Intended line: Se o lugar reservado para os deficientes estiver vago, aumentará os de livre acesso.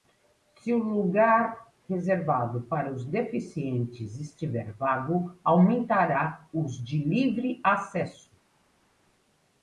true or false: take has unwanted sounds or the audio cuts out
false